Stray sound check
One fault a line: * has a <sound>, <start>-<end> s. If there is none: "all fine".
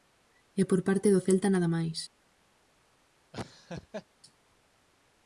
* has a laugh, 3.3-4.1 s